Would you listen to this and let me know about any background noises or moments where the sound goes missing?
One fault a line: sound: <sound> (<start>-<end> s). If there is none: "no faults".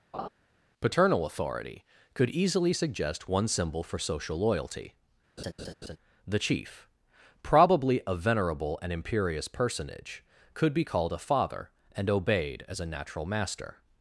sound: laugh (0.1-0.3 s)
sound: laugh (5.4-6.0 s)